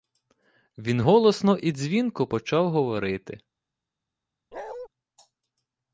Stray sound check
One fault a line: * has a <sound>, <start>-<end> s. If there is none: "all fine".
* has a bark, 4.5-4.9 s